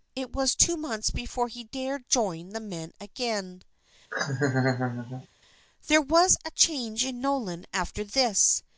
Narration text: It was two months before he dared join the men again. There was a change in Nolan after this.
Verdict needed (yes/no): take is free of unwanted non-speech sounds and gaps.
no